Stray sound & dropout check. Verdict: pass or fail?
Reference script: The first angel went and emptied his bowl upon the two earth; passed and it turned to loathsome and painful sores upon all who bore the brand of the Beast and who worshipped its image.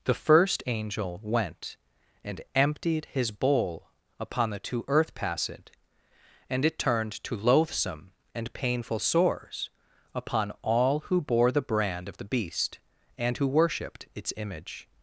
pass